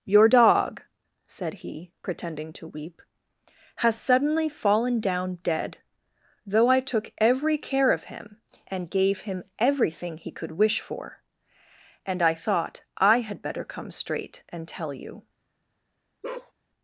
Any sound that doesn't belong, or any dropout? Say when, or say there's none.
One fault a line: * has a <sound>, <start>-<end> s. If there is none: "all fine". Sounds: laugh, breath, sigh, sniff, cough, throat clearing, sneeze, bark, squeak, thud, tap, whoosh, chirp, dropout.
* has a bark, 16.2-16.5 s